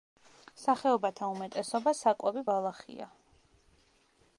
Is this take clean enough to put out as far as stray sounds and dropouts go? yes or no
yes